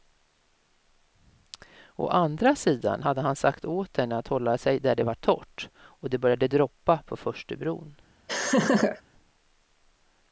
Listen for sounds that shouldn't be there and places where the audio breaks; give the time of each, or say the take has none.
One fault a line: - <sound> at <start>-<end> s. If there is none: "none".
- laugh at 8.3-9.0 s